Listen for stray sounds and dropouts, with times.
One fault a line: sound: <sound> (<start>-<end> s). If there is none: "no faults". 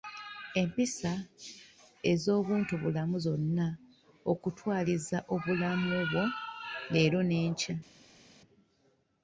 no faults